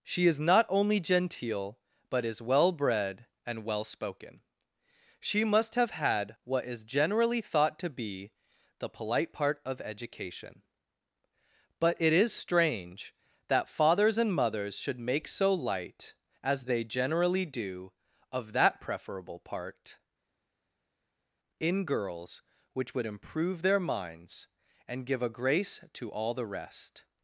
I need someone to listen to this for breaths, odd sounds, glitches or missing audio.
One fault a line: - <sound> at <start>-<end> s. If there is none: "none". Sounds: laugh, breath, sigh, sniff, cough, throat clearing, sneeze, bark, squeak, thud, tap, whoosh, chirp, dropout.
none